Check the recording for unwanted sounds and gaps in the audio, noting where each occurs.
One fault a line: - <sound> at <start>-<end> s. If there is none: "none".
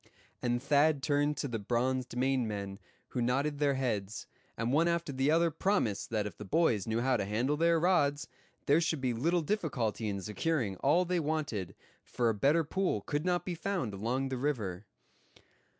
none